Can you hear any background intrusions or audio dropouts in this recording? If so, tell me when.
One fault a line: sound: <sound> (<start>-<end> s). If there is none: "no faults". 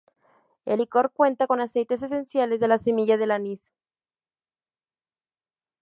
no faults